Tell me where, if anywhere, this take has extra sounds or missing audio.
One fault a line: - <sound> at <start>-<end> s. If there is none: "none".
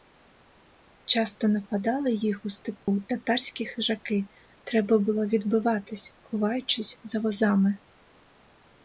- dropout at 2.8-2.9 s